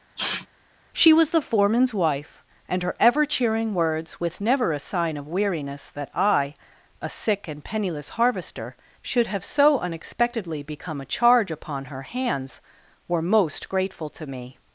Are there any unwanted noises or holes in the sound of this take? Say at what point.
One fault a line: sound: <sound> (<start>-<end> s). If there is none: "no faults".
sound: sneeze (0.2-0.5 s)